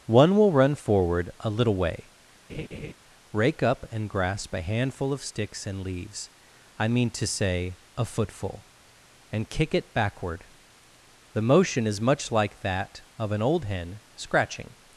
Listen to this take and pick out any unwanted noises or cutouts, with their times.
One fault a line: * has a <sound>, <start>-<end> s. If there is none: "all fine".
* has a laugh, 2.5-2.9 s